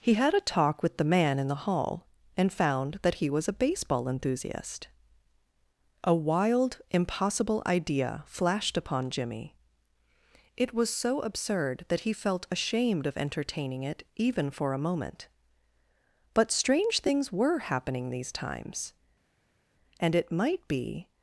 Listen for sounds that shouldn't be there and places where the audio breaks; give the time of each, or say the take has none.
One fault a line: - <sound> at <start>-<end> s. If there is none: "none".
none